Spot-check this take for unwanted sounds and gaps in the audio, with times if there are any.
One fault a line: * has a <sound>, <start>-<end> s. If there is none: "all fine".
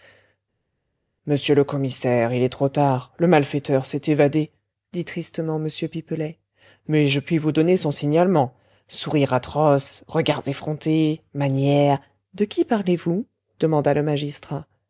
all fine